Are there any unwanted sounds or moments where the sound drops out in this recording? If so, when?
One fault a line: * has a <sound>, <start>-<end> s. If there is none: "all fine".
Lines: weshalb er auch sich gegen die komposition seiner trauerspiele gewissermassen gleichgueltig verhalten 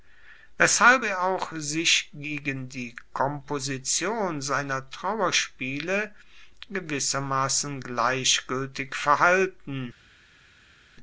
all fine